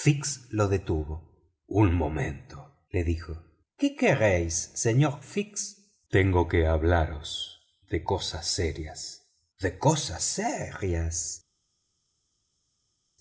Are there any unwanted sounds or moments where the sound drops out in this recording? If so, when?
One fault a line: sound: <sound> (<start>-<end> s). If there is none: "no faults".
no faults